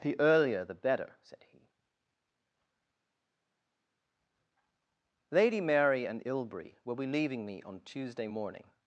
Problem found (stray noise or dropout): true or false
false